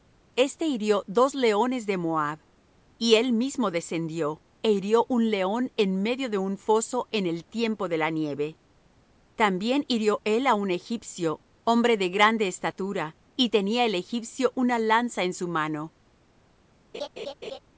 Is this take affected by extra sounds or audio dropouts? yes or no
yes